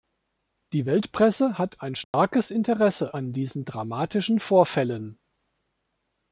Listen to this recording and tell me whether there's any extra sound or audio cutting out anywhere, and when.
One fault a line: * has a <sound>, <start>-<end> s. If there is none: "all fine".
* has a dropout, 2.0-2.1 s